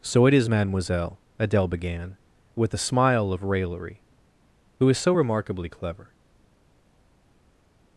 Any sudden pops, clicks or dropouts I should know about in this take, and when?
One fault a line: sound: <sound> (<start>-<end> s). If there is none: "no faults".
no faults